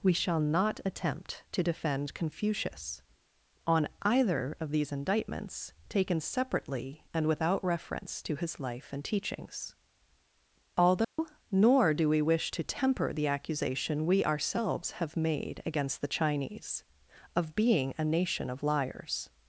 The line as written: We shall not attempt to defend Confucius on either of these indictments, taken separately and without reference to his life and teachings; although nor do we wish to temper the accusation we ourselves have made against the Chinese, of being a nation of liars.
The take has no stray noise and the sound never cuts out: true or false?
false